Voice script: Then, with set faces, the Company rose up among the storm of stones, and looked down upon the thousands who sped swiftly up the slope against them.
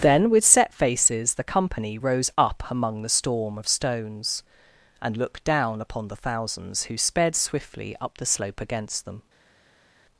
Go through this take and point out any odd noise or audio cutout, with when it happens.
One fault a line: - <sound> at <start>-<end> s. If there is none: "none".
none